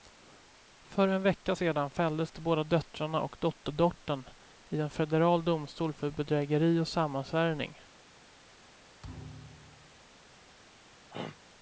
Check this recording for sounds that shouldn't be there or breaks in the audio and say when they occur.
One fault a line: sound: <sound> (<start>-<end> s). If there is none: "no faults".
sound: thud (9.0-10.0 s)
sound: throat clearing (11.1-11.4 s)